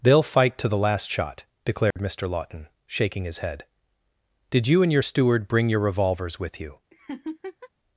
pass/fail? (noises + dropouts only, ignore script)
fail